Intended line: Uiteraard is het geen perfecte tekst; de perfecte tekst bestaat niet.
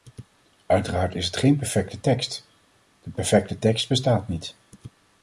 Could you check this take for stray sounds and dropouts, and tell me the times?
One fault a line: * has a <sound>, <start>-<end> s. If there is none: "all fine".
all fine